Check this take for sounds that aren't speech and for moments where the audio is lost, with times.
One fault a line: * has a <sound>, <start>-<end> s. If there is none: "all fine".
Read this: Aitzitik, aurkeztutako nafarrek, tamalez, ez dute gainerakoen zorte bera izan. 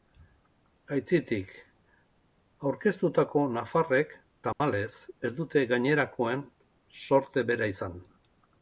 * has a dropout, 4.5-4.6 s